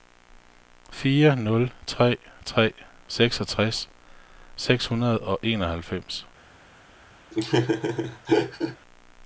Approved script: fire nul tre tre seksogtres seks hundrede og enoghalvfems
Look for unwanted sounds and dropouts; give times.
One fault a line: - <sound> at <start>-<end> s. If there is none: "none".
- laugh at 7.3-8.8 s